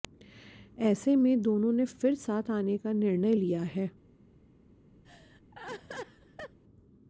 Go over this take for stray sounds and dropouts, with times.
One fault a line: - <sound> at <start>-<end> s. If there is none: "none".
- laugh at 5.0-6.6 s